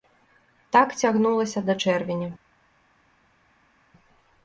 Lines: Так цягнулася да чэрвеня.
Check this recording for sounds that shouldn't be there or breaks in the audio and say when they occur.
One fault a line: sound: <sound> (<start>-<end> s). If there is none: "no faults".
no faults